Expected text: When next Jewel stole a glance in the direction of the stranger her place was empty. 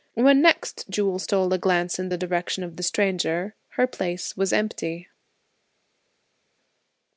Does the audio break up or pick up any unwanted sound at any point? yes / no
no